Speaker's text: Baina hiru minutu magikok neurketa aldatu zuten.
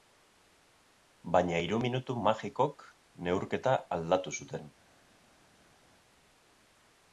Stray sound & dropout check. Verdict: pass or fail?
pass